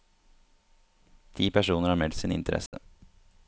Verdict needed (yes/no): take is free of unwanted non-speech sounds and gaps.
no